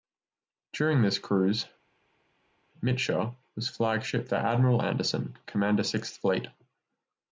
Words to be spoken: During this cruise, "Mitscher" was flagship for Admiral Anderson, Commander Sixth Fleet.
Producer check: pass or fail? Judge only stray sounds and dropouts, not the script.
pass